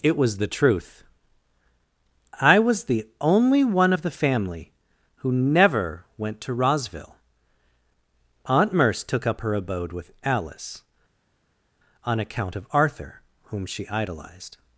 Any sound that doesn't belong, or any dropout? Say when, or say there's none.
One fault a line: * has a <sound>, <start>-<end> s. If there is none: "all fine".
all fine